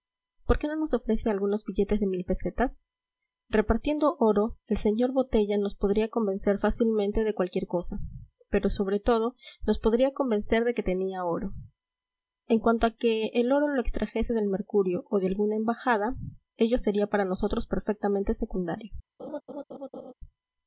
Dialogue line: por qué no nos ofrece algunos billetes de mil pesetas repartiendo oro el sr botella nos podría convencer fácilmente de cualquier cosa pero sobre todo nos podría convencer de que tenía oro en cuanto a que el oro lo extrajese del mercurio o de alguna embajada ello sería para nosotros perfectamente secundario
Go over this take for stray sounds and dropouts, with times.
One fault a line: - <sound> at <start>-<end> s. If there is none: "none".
- laugh at 19.2-20.1 s